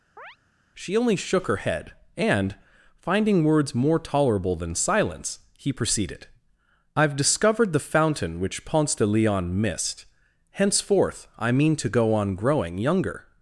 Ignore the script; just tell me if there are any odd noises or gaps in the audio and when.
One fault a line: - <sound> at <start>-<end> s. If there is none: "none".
- chirp at 0.2-0.4 s